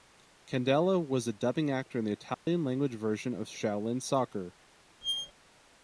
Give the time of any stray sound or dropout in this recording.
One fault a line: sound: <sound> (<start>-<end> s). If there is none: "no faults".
sound: dropout (2.3-2.5 s)
sound: squeak (5.0-5.3 s)